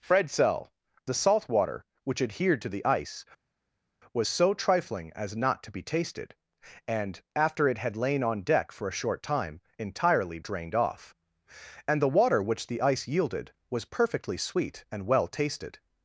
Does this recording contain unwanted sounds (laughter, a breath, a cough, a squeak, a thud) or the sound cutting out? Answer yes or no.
no